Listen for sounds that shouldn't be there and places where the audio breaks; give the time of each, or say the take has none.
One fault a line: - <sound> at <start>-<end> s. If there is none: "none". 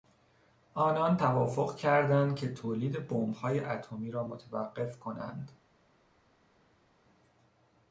none